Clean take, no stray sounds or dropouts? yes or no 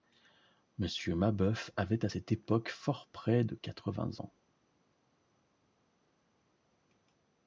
yes